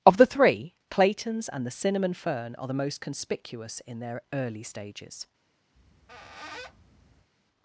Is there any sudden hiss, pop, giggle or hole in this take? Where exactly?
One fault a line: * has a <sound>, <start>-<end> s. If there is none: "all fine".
* has a squeak, 5.7-7.3 s